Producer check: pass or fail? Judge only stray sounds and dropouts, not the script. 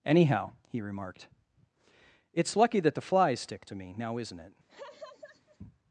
fail